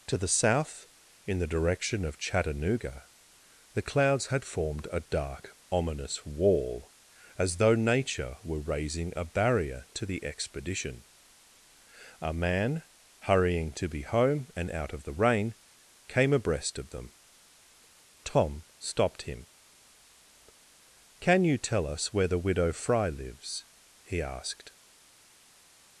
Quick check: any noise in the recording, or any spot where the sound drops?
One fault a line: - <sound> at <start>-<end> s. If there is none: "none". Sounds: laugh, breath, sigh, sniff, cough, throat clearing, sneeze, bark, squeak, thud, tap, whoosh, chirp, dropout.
none